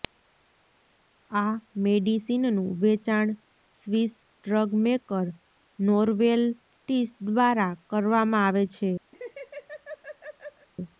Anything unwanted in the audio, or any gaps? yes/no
yes